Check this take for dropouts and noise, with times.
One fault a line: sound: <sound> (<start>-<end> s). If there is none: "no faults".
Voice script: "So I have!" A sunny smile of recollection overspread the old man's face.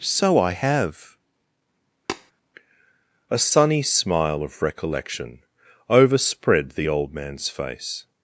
sound: tap (2.1-2.3 s)